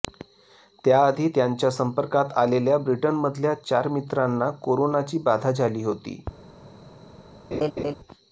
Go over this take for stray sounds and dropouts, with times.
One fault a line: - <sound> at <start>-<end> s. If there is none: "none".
- laugh at 7.5-7.9 s